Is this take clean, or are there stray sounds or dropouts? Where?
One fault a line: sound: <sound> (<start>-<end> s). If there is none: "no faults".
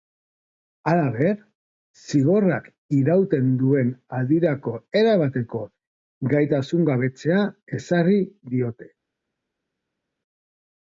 no faults